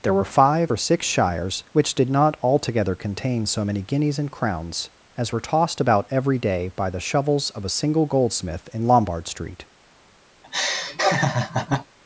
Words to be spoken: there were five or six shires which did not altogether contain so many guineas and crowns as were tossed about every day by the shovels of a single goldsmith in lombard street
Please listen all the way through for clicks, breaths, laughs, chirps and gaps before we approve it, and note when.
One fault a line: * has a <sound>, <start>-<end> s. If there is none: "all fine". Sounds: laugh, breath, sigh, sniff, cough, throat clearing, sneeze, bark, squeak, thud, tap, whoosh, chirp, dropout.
* has a laugh, 10.4-11.9 s